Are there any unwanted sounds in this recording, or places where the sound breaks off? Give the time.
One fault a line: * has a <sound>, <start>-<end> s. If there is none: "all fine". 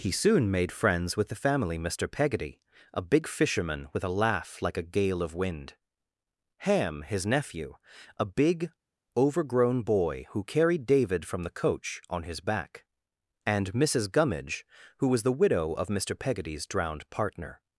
all fine